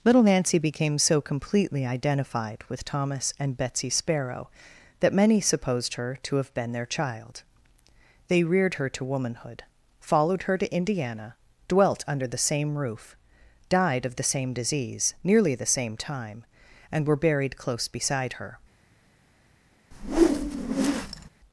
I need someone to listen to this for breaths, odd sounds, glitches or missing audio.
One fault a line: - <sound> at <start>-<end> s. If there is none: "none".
- whoosh at 19.9-21.3 s